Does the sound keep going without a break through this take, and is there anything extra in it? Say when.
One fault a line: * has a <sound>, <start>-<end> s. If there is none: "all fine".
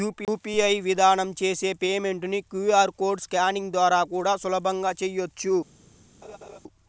* has a laugh, 6.2-6.6 s